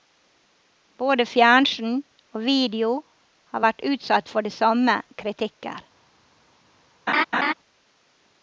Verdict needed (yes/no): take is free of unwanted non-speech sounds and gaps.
no